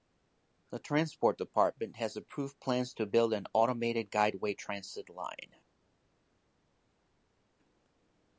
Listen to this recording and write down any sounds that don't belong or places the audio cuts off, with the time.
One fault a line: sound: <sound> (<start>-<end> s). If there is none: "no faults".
no faults